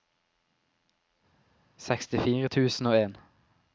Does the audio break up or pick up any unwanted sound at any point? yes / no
no